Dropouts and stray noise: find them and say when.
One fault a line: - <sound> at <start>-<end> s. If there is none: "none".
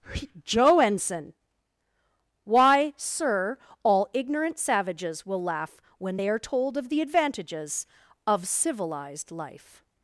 none